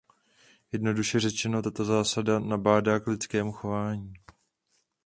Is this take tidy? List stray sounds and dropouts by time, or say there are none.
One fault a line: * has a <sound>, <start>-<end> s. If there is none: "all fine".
all fine